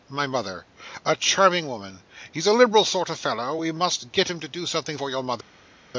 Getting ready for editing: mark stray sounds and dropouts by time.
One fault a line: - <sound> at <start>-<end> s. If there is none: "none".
none